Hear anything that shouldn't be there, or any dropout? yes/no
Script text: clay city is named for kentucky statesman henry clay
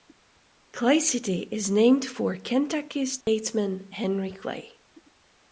yes